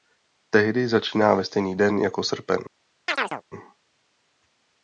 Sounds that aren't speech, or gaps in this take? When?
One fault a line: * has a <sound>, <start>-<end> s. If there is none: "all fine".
* has a chirp, 3.1-3.4 s